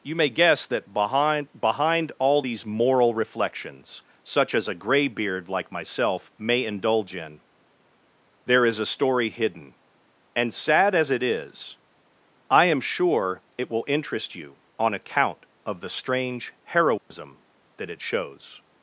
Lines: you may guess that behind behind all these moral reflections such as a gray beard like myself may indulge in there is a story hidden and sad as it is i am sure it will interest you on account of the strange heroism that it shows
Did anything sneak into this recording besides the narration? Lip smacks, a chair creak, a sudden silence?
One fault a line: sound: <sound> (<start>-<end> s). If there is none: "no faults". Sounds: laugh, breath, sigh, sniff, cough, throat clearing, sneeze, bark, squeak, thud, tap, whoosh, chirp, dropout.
sound: dropout (17.0-17.1 s)